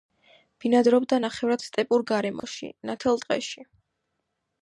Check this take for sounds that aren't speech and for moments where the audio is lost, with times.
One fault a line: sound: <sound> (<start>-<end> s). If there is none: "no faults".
sound: dropout (2.4-2.4 s)